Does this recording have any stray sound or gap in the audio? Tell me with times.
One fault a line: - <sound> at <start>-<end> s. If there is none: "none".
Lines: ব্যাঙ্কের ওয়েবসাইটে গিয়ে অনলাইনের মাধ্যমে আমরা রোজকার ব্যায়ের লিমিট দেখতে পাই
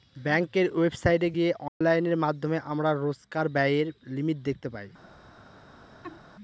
- dropout at 1.7-1.8 s
- laugh at 6.0-6.2 s